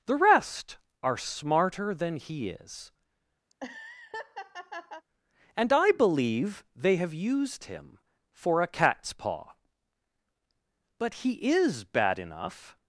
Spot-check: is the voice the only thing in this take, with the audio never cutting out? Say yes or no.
no